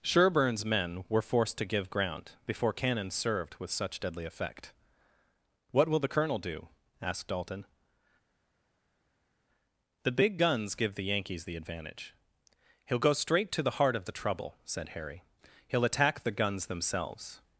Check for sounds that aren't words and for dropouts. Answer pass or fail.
pass